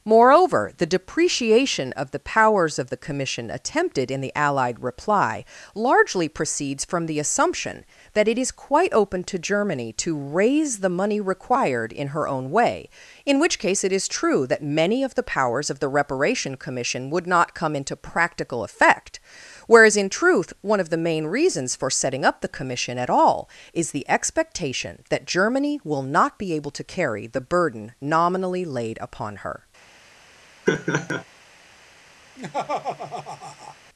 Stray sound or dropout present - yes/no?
yes